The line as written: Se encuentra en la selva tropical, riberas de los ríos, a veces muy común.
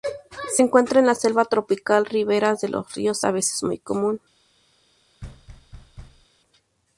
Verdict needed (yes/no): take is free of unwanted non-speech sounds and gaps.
no